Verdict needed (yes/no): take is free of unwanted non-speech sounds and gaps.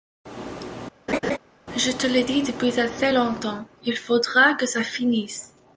no